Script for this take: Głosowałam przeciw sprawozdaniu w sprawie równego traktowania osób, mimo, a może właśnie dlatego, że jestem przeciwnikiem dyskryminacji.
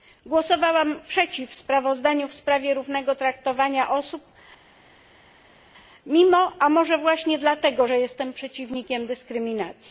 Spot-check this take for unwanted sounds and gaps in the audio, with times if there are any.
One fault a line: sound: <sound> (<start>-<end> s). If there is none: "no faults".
no faults